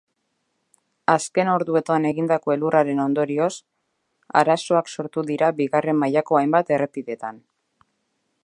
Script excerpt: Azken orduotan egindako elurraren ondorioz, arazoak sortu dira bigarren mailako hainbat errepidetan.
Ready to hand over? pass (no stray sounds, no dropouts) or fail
pass